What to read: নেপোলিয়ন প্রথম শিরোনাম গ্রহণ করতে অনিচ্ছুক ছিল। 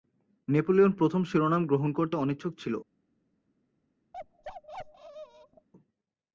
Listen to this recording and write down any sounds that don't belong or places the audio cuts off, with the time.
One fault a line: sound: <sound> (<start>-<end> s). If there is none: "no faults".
sound: bark (4.1-5.7 s)